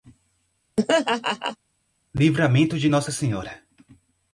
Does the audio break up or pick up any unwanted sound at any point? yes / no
yes